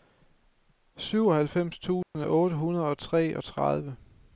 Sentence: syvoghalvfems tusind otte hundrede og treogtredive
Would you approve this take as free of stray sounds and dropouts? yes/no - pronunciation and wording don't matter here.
no